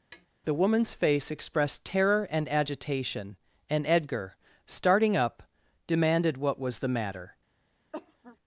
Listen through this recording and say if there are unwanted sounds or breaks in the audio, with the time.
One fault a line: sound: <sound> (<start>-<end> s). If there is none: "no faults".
sound: tap (0.1-0.3 s)
sound: cough (7.9-8.4 s)